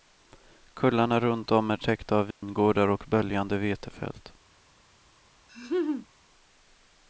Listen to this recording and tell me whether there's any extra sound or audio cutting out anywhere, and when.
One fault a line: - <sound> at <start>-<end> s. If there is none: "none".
- dropout at 2.3-2.4 s
- laugh at 5.5-6.1 s